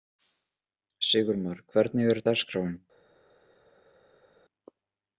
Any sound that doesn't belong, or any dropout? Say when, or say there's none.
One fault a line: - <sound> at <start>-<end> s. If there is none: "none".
none